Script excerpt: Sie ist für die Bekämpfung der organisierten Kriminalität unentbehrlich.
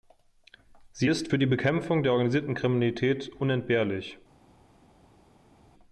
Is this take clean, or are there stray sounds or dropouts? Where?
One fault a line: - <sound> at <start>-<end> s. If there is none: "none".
none